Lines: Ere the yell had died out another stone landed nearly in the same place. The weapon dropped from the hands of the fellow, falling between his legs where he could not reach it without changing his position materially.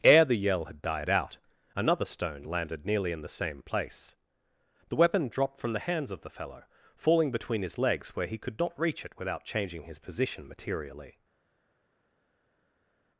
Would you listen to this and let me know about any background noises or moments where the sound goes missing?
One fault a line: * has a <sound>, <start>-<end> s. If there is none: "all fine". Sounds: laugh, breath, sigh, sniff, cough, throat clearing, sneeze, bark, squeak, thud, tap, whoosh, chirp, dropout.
all fine